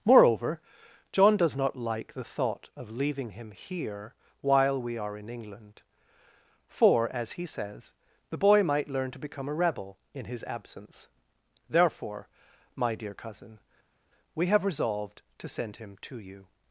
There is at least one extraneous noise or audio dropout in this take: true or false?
false